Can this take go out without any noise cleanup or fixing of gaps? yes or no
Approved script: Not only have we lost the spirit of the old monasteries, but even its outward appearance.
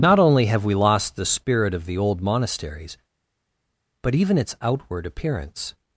yes